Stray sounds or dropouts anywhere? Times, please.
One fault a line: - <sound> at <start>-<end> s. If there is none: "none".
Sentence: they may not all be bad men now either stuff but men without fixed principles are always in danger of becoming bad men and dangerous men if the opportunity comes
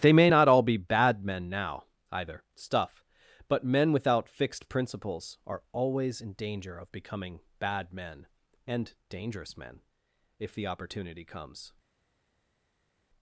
none